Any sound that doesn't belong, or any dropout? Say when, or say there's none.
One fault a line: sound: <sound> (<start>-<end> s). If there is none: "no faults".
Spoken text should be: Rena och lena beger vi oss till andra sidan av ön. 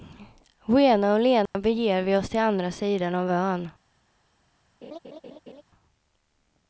sound: dropout (1.5-1.6 s)
sound: laugh (4.8-5.6 s)